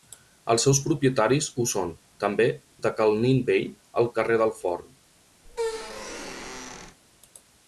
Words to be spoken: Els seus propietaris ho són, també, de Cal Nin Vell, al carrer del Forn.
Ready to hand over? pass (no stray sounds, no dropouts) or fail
fail